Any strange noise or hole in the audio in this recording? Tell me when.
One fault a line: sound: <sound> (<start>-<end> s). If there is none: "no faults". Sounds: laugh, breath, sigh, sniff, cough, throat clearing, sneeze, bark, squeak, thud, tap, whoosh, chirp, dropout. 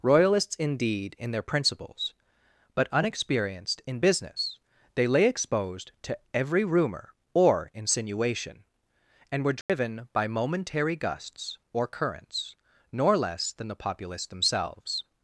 sound: dropout (9.6-9.7 s)